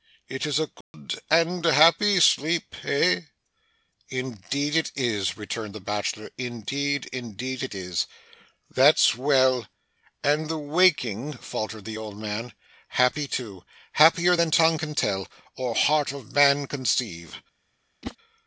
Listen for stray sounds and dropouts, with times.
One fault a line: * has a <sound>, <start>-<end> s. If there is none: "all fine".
* has a dropout, 0.8-0.9 s
* has a whoosh, 18.0-18.2 s